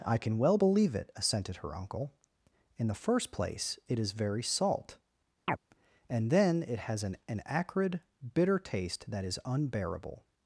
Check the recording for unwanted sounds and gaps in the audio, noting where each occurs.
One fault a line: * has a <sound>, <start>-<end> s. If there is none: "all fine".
* has a chirp, 5.5-5.6 s